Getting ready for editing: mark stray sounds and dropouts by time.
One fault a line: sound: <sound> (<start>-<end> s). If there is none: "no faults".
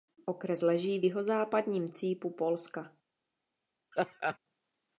sound: laugh (3.9-4.4 s)